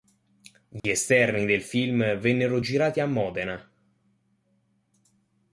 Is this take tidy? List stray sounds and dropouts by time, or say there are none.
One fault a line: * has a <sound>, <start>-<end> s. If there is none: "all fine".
* has a dropout, 0.8-0.8 s